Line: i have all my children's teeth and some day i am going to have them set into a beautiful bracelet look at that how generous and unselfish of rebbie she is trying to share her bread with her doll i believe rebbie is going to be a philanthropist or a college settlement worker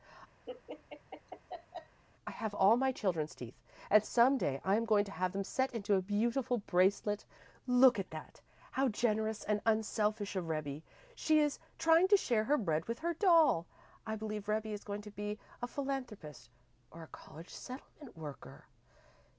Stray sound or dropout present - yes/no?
yes